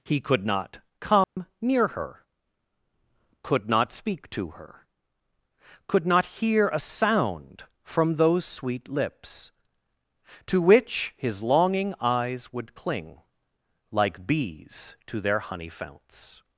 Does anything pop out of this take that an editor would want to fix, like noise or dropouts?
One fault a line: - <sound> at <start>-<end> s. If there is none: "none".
- dropout at 1.2-1.4 s